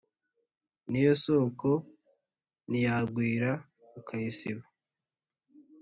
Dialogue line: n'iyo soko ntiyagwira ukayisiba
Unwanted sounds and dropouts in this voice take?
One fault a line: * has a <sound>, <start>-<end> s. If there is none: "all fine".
all fine